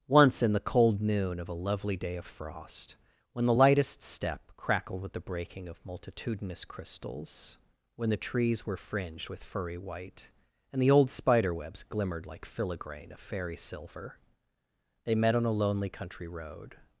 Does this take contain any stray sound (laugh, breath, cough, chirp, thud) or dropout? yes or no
no